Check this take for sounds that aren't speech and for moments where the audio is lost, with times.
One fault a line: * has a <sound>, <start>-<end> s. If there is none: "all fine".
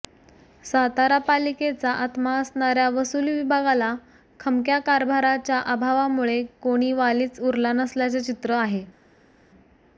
all fine